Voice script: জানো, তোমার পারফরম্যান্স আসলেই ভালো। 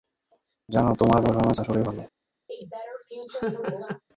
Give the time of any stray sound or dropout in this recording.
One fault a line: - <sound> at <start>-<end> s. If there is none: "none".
- laugh at 2.5-4.0 s